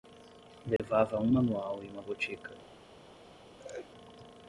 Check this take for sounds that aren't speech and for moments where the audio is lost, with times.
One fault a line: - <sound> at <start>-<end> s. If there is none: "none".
- dropout at 0.8-0.8 s
- laugh at 3.6-3.9 s